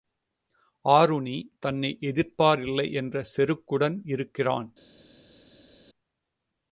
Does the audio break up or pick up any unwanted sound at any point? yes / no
no